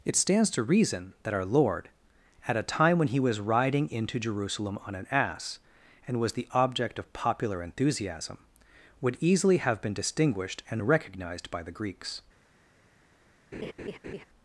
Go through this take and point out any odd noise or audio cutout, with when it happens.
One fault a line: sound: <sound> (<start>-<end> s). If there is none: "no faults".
sound: laugh (13.5-14.2 s)